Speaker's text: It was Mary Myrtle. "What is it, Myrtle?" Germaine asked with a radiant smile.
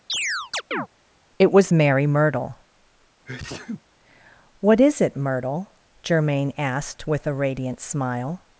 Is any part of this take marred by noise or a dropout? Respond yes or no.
yes